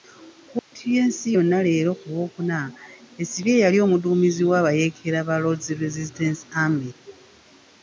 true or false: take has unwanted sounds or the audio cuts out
true